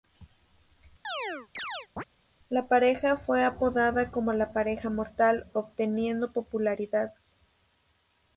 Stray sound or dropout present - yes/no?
yes